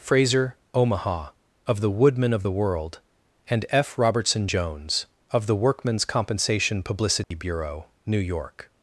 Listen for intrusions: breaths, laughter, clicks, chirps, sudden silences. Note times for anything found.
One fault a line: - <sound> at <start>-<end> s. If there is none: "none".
- dropout at 7.2-7.3 s